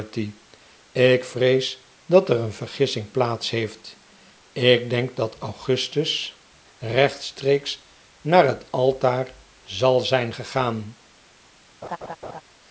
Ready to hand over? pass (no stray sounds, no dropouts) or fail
fail